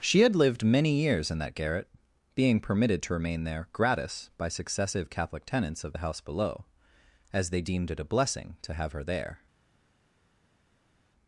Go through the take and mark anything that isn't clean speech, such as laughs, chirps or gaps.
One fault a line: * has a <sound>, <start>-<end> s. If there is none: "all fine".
all fine